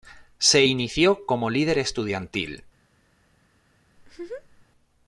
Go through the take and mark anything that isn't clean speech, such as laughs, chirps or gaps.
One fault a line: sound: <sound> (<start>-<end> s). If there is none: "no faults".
sound: laugh (4.0-4.7 s)